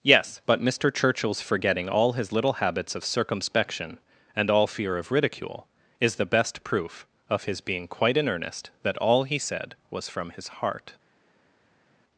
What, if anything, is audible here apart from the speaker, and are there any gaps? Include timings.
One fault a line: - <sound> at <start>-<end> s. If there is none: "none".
none